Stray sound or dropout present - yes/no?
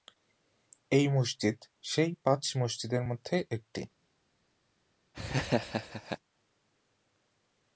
yes